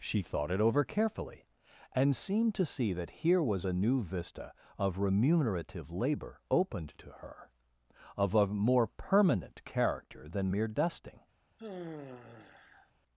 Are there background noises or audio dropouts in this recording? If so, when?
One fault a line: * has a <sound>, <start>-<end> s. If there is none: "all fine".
* has a sigh, 11.6-12.9 s